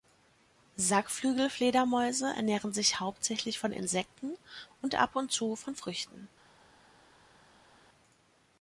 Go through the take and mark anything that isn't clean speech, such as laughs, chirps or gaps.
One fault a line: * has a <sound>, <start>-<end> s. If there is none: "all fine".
all fine